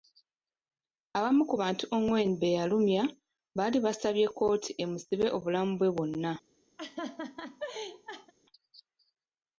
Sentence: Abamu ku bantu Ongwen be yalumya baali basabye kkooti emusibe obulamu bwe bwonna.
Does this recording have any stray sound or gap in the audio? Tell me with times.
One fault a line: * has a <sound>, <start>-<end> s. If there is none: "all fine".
* has a laugh, 6.8-8.3 s